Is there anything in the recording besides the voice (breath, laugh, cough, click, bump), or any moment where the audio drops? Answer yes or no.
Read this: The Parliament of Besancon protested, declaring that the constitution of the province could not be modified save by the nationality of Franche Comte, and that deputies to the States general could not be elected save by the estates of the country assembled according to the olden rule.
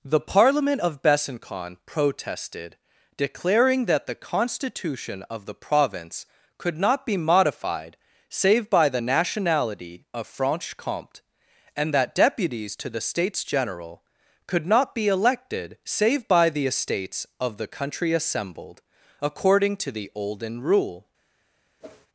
yes